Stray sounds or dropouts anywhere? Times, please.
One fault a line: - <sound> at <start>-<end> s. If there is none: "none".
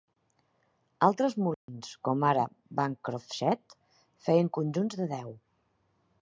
- dropout at 1.5-1.7 s